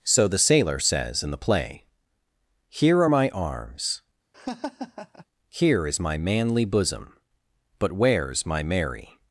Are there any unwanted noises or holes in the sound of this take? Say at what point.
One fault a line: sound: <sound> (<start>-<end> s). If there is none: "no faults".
sound: laugh (4.3-5.3 s)